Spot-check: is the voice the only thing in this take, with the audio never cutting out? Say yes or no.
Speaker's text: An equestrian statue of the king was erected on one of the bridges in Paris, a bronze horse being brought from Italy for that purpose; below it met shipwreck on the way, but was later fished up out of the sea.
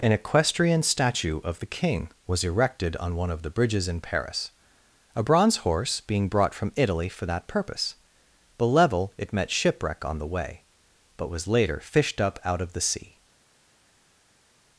yes